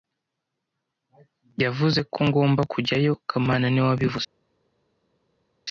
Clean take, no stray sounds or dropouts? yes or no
yes